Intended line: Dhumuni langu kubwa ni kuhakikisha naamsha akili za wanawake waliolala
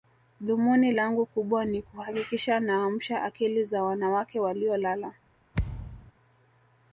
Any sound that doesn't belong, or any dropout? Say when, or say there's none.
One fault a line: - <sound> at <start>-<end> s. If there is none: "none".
- thud at 5.5-6.1 s